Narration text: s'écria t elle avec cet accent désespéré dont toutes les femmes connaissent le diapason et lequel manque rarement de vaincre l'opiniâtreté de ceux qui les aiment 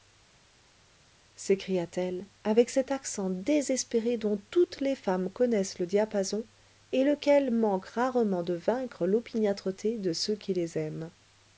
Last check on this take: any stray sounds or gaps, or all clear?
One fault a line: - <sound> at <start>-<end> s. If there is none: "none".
none